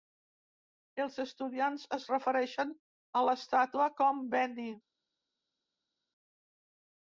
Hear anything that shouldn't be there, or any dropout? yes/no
no